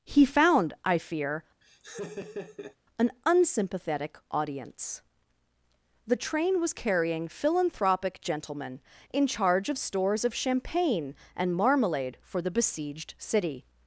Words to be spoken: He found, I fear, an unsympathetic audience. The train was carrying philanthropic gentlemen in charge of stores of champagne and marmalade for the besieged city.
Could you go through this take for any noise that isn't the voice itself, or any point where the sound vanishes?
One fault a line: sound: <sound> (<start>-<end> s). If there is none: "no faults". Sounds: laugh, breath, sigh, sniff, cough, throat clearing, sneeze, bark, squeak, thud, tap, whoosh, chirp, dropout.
sound: laugh (1.6-2.8 s)